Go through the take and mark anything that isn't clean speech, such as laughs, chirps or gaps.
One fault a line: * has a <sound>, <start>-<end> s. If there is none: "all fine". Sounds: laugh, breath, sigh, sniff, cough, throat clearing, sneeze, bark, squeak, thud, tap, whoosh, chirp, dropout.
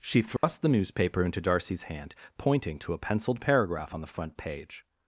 * has a dropout, 0.4-0.4 s